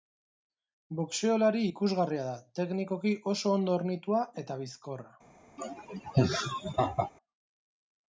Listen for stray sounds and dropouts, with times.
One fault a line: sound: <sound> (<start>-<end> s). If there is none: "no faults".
sound: laugh (5.6-7.1 s)